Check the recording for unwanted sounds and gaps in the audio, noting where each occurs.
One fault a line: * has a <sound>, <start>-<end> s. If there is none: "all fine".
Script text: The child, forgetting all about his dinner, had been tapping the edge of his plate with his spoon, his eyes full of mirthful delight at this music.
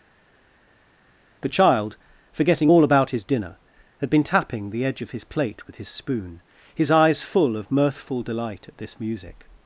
all fine